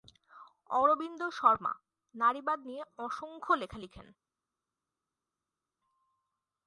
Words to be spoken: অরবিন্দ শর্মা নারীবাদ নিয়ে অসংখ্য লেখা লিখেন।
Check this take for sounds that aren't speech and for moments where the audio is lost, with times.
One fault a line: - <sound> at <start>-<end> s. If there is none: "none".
none